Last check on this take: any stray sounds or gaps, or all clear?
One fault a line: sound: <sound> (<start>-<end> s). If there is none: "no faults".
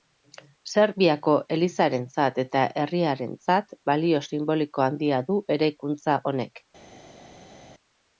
no faults